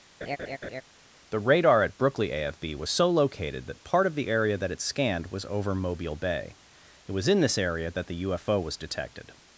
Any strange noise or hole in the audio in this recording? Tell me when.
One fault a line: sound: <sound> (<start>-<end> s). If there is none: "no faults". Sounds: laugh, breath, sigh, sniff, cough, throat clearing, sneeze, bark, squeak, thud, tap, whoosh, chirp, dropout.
sound: laugh (0.2-0.8 s)